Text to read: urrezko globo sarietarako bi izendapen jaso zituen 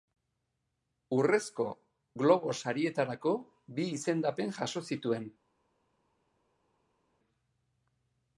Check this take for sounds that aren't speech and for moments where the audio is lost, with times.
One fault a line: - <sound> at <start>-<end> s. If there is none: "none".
none